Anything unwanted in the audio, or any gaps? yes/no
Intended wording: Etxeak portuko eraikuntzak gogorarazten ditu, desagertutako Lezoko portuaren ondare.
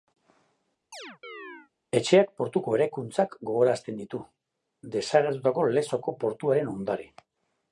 yes